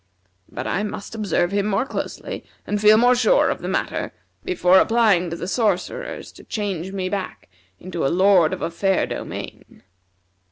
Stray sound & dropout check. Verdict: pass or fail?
pass